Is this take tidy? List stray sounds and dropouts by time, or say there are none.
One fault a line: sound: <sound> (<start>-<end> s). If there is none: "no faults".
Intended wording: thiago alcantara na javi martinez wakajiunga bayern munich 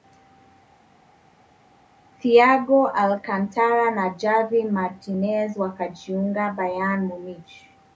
no faults